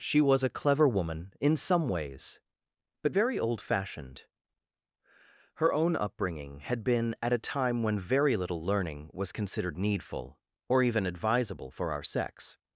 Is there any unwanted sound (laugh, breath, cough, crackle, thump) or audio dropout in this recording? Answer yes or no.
no